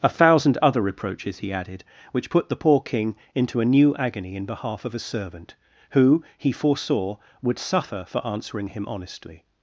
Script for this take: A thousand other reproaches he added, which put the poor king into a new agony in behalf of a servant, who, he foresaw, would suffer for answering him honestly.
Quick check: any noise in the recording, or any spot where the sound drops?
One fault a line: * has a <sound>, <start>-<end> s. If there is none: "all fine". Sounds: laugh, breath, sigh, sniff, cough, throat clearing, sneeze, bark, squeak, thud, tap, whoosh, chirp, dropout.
all fine